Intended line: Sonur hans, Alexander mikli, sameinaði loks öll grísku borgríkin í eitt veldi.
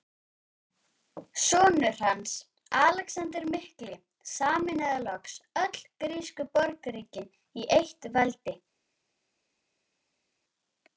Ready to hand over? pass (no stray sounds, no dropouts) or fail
pass